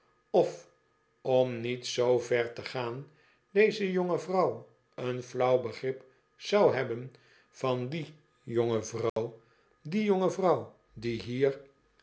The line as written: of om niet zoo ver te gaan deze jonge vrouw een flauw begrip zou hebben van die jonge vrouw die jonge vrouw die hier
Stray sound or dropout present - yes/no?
yes